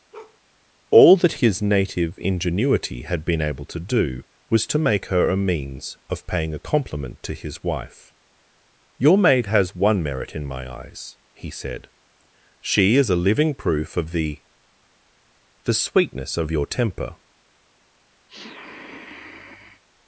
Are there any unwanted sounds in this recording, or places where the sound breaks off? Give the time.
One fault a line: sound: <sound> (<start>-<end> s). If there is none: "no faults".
sound: bark (0.1-0.4 s)
sound: sniff (18.3-19.8 s)